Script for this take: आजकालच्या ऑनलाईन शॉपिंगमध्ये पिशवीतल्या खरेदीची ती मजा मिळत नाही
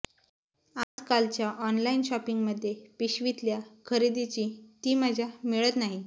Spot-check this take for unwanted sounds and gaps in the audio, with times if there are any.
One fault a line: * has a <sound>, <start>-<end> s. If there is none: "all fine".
* has a dropout, 0.8-1.0 s